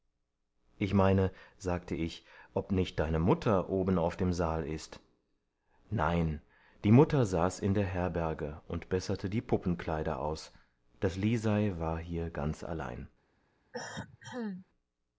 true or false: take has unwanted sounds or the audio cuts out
true